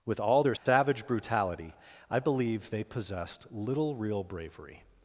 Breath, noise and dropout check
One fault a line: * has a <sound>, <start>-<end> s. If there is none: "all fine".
* has a dropout, 0.6-0.7 s